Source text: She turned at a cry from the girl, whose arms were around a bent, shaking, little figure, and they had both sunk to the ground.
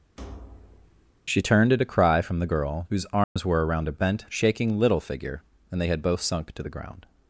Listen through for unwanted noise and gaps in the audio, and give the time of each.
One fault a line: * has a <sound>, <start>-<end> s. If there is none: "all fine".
* has a thud, 0.2-1.1 s
* has a dropout, 3.2-3.4 s